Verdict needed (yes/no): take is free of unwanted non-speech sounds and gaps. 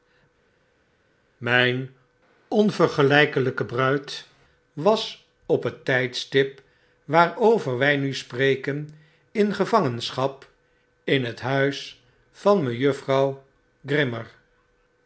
yes